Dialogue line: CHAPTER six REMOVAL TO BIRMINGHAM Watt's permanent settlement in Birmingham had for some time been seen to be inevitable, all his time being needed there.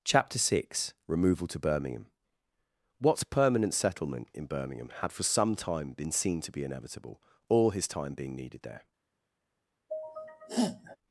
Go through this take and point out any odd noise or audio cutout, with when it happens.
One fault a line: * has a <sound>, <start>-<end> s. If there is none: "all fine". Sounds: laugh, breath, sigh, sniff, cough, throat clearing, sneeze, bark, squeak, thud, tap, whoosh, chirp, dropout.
* has a sneeze, 9.9-11.0 s